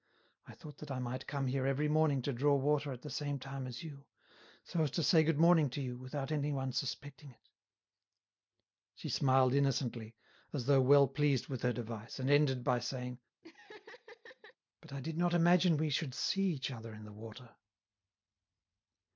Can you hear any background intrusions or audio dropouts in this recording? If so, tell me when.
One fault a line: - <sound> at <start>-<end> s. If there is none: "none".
- laugh at 13.4-14.6 s